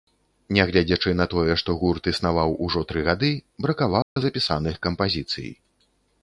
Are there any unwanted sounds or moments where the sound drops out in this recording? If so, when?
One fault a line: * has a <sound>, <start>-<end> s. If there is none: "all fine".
* has a dropout, 4.0-4.2 s